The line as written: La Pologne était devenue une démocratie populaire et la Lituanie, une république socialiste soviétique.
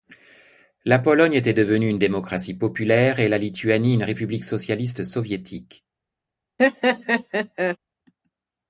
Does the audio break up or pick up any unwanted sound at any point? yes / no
yes